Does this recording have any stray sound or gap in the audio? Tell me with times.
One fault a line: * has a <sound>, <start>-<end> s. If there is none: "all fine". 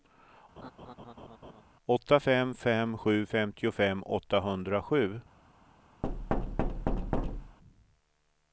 * has a laugh, 0.6-1.6 s
* has a thud, 6.0-7.6 s